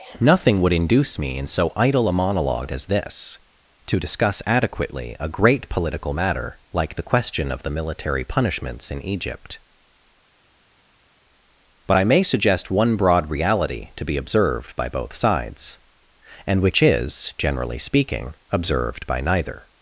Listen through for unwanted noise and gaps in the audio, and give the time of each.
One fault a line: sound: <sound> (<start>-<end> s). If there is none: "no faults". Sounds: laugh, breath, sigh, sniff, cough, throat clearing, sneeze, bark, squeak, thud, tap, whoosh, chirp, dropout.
no faults